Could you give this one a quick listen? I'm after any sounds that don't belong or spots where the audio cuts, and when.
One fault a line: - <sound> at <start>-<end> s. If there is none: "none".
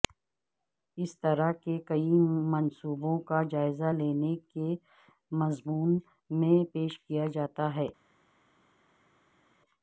none